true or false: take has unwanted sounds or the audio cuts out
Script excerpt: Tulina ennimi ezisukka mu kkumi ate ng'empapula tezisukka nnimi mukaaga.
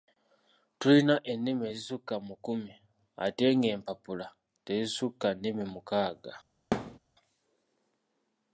true